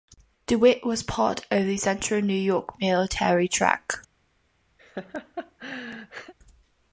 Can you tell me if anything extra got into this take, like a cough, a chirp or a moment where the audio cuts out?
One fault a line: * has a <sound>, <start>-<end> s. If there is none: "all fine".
* has a laugh, 4.8-6.3 s